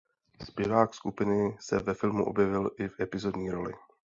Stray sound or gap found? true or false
false